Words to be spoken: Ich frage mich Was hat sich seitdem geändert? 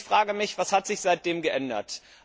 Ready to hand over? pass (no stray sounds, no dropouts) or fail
pass